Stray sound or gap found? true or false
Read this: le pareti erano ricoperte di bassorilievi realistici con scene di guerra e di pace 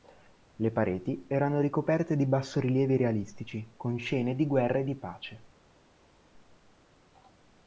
false